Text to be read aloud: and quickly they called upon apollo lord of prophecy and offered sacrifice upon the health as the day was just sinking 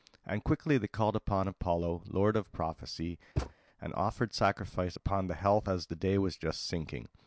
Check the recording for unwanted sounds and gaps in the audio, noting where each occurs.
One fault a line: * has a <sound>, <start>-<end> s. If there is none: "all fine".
* has a thud, 3.4-3.5 s